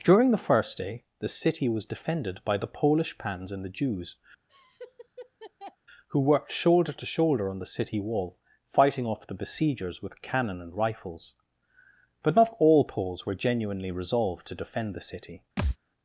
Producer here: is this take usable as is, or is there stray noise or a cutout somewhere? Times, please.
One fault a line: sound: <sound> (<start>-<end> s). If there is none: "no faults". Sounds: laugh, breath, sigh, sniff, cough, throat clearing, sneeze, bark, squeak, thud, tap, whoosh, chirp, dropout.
sound: laugh (4.5-5.8 s)
sound: thud (15.6-15.8 s)